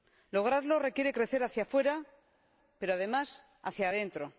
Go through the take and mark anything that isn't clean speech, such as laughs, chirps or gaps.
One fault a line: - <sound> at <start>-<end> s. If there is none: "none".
none